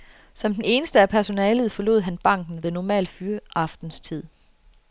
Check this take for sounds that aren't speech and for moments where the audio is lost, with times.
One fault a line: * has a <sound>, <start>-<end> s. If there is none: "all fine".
all fine